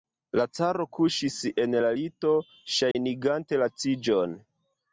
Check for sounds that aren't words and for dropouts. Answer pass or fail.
fail